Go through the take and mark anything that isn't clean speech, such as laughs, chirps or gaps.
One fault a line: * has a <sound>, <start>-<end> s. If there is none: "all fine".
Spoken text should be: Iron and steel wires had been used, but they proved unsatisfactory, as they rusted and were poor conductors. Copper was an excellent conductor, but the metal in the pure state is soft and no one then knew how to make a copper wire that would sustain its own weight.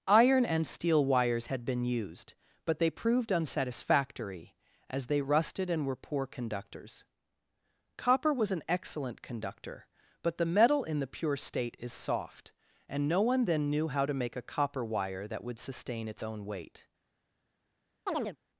* has a chirp, 18.1-18.4 s